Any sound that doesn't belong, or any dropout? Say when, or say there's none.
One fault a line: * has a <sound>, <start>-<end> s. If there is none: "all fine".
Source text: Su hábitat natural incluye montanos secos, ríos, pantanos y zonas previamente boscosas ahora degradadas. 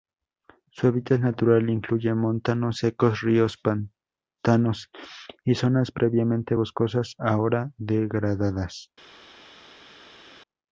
all fine